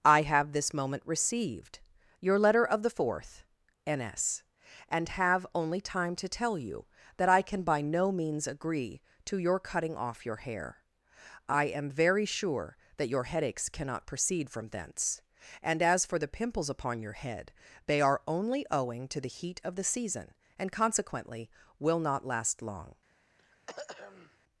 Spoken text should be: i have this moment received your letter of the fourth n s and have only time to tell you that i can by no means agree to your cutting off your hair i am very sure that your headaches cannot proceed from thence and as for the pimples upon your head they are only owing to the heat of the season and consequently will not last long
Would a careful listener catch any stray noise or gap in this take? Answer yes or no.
yes